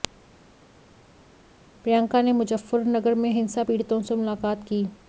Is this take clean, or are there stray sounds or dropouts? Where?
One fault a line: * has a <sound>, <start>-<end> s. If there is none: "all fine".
all fine